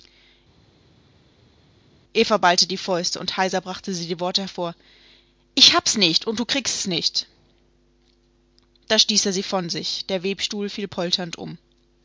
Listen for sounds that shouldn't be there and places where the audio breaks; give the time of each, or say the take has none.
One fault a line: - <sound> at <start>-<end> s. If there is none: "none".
none